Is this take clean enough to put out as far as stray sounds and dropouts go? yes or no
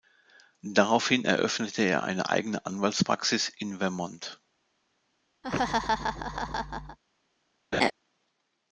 no